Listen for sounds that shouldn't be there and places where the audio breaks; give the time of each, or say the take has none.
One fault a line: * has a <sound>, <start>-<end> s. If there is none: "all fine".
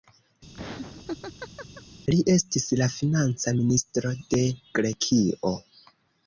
* has a laugh, 0.5-1.8 s